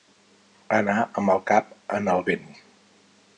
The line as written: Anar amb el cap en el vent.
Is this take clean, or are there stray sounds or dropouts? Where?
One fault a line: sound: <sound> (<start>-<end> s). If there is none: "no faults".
no faults